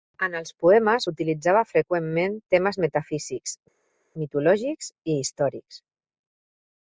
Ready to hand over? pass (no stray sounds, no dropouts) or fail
pass